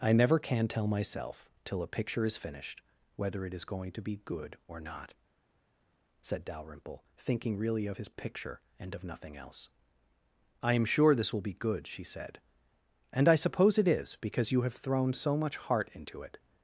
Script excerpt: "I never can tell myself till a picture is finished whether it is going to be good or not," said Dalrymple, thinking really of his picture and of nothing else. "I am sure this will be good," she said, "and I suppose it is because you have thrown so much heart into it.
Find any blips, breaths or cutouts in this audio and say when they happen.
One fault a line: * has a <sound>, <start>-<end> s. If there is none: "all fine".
all fine